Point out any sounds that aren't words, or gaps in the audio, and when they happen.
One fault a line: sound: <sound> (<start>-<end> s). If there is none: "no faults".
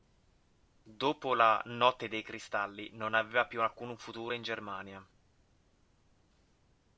no faults